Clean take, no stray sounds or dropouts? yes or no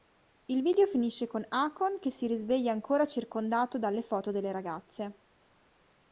yes